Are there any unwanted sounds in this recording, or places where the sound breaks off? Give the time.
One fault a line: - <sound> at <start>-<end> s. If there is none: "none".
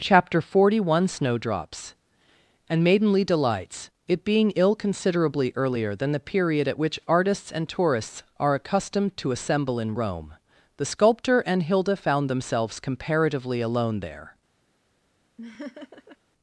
- laugh at 15.4-16.2 s